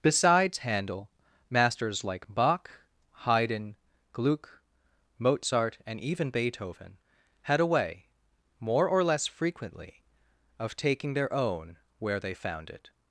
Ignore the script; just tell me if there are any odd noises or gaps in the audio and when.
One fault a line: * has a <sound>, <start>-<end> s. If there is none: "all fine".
all fine